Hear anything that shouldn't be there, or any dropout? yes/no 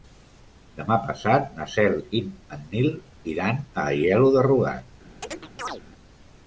yes